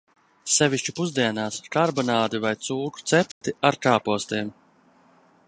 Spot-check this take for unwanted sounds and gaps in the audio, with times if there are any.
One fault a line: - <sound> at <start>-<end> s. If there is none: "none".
- dropout at 3.3-3.4 s